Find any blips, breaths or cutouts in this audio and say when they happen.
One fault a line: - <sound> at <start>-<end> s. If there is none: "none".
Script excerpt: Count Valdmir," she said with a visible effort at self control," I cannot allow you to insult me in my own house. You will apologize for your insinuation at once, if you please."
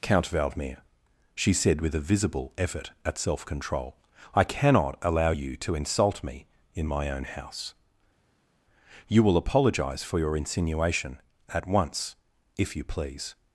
none